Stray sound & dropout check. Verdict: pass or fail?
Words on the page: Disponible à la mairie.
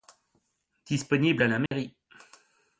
fail